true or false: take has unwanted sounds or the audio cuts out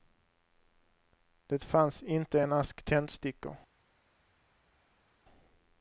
false